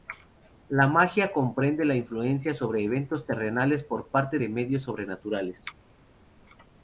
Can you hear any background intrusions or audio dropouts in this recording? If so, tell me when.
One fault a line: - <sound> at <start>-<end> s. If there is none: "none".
none